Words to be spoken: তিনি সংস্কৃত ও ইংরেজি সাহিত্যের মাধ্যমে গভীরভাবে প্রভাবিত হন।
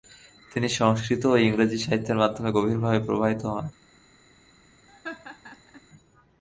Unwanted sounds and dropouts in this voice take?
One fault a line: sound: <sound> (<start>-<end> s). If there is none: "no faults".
sound: laugh (4.9-5.8 s)